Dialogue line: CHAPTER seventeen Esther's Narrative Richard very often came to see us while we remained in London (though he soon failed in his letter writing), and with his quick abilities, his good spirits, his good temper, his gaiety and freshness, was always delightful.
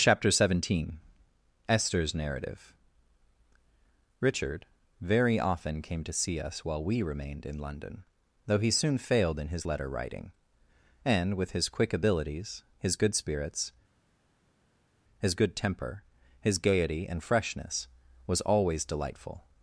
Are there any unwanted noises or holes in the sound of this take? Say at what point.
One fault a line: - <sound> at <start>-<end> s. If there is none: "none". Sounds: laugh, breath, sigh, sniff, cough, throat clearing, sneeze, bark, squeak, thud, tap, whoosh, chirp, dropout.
none